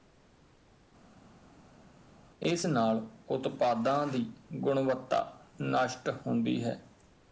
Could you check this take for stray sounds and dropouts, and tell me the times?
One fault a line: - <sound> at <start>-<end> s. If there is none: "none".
none